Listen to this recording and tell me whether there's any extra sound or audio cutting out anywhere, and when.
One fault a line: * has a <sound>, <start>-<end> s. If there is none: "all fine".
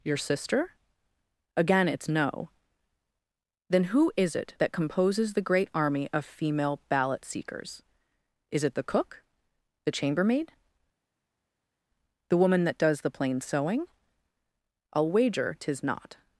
all fine